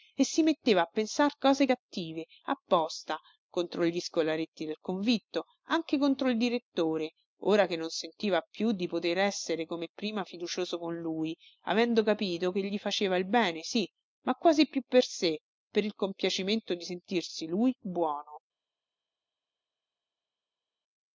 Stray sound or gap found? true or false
false